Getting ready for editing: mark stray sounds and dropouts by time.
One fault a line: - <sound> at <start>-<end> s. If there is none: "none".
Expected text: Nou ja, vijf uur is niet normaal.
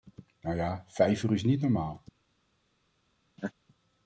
- laugh at 3.4-3.5 s